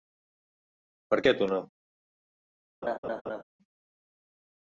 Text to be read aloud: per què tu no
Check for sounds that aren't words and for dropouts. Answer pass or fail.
fail